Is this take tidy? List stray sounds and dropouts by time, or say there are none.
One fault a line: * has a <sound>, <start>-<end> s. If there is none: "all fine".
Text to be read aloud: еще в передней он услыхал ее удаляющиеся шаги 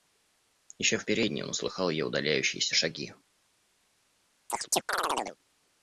* has a chirp, 4.5-5.4 s